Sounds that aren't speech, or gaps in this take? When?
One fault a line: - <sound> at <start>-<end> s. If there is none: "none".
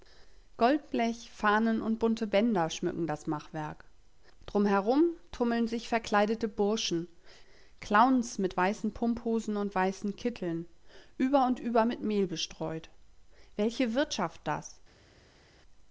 none